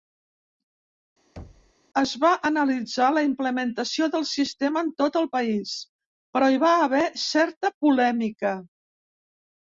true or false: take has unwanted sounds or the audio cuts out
true